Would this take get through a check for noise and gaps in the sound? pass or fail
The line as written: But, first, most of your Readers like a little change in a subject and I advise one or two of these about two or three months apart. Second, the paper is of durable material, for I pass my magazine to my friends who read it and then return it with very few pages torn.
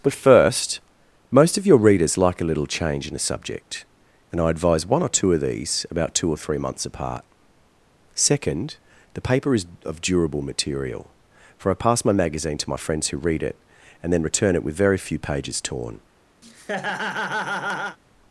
fail